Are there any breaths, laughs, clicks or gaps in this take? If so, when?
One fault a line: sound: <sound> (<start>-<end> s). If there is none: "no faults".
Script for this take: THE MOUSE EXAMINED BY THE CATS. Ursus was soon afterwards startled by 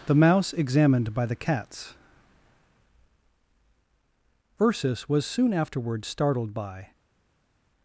no faults